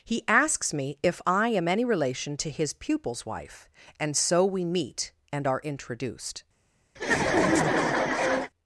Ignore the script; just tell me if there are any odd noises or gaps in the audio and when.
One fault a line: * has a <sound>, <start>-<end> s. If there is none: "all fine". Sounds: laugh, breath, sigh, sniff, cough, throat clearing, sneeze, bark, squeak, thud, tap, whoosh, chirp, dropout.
* has a laugh, 7.0-8.5 s